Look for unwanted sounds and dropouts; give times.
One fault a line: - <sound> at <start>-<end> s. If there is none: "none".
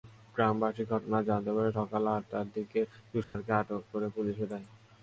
- dropout at 3.2-3.3 s